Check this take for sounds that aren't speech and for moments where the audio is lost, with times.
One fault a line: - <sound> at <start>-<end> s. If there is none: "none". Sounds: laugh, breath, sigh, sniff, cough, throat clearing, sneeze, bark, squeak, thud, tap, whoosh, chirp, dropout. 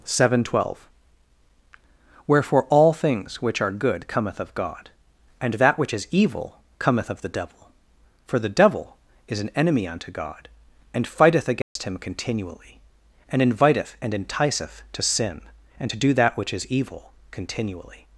- dropout at 11.6-11.8 s